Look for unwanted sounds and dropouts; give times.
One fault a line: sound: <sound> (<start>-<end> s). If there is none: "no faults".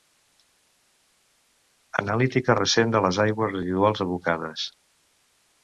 no faults